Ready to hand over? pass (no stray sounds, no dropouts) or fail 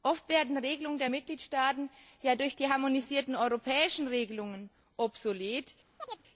fail